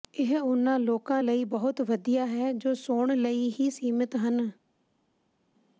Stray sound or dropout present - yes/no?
no